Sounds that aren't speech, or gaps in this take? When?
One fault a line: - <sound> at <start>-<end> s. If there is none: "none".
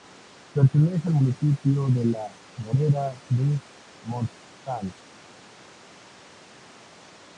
none